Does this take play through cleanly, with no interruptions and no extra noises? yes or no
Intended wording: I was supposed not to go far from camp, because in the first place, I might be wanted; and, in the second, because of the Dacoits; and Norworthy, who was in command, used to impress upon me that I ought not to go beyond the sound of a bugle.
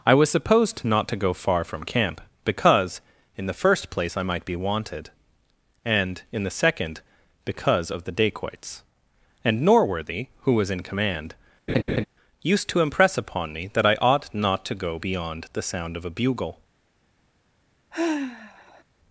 no